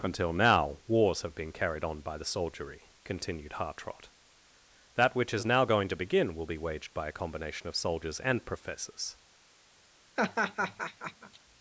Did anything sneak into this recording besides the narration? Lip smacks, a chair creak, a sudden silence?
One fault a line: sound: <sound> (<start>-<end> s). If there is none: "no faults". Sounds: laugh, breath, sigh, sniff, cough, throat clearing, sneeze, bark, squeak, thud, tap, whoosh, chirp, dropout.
sound: laugh (10.2-11.4 s)